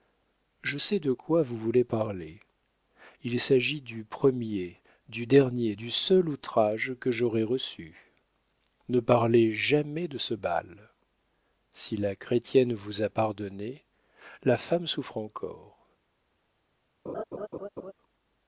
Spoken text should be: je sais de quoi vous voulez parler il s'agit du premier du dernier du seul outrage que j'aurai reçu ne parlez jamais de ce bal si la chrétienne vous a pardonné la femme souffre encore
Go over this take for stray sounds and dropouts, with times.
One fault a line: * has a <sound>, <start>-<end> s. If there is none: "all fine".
* has a laugh, 17.1-17.9 s